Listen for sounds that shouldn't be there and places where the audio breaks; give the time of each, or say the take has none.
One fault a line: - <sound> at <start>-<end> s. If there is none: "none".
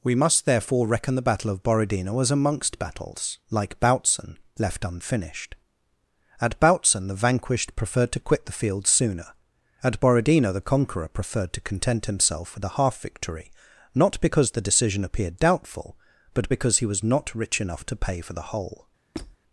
- squeak at 19.1-19.4 s